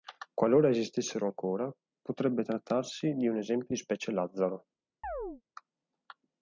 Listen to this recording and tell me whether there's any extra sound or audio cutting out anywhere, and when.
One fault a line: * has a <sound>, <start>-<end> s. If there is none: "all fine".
* has a chirp, 5.0-5.4 s